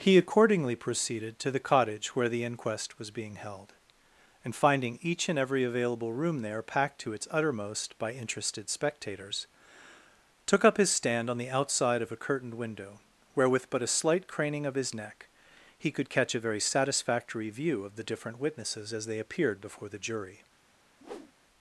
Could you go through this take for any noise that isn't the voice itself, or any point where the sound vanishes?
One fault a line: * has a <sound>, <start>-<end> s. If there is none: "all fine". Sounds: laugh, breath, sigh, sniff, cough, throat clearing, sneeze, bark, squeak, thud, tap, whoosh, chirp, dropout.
* has a whoosh, 21.0-21.3 s